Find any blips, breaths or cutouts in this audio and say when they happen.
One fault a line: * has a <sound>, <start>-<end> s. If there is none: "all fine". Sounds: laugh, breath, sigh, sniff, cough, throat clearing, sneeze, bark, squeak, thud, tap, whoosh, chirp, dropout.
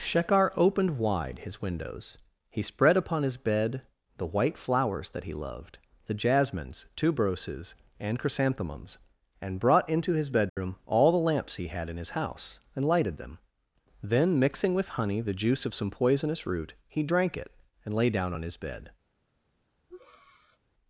* has a dropout, 10.5-10.6 s
* has a breath, 19.9-20.6 s